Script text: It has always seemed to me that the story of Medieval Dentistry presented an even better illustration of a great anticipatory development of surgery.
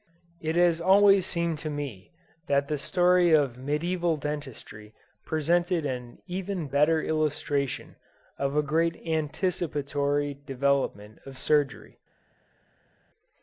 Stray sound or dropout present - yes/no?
no